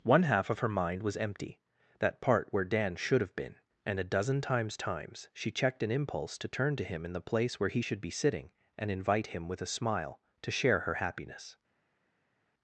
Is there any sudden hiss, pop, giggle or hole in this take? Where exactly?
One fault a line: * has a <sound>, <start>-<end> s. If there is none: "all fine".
all fine